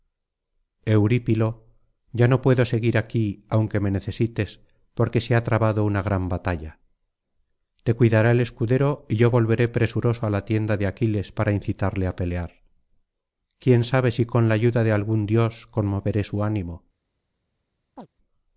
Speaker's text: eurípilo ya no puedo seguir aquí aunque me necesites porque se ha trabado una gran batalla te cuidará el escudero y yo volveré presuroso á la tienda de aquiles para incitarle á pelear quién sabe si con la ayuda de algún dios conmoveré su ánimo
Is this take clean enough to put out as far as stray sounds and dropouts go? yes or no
no